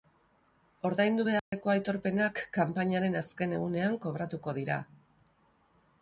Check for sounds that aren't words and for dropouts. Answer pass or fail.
fail